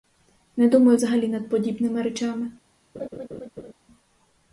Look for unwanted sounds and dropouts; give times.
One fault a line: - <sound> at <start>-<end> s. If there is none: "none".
- laugh at 2.9-3.7 s